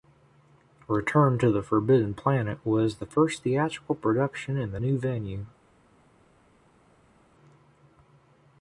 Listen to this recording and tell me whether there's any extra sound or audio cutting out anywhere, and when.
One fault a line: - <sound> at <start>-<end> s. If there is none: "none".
none